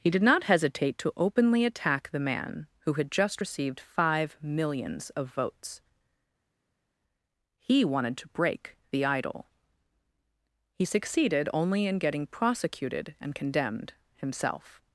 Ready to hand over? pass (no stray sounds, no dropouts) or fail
pass